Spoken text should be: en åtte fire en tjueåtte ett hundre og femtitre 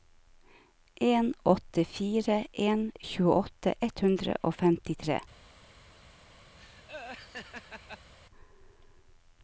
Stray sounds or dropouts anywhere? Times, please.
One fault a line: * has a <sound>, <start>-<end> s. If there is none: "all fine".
* has a laugh, 6.6-8.1 s